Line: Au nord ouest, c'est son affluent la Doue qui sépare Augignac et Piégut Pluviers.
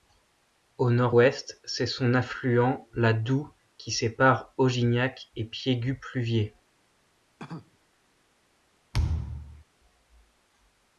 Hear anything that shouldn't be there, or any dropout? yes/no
yes